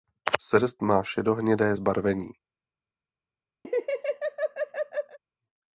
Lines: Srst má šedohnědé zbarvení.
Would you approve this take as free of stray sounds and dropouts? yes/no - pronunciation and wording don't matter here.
no